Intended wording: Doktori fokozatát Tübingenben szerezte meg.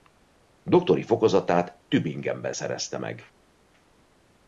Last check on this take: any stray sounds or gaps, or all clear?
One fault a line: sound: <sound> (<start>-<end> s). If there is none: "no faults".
no faults